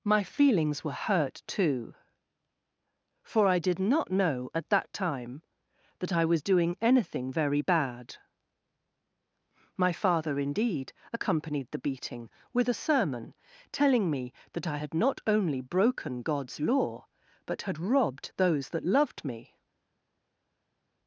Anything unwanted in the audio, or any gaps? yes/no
no